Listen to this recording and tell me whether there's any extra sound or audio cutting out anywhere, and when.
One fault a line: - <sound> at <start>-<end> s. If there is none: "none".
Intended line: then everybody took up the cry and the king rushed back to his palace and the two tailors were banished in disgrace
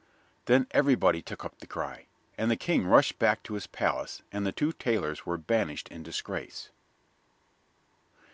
none